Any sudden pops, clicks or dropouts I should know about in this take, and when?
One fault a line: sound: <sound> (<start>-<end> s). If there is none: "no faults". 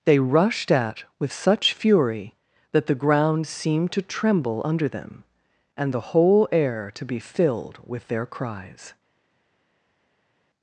no faults